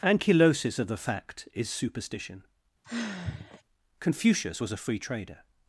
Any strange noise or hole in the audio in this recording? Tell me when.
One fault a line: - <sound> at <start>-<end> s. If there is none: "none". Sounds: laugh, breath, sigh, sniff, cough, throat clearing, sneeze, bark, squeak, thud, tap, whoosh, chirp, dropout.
- sigh at 2.8-3.6 s